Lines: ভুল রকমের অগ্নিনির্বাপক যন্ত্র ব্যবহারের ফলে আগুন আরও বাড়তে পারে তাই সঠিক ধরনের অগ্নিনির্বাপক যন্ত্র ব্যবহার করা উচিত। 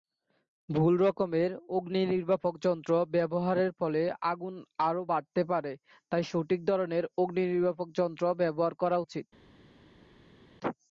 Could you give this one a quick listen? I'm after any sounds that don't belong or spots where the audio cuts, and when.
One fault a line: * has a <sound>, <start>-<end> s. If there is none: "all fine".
all fine